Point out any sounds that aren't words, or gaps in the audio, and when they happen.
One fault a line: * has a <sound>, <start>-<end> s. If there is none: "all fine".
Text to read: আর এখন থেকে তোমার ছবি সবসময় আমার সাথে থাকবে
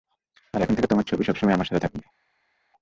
all fine